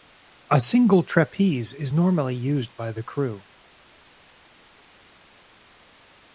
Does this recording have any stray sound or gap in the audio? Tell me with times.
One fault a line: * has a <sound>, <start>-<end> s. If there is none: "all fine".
all fine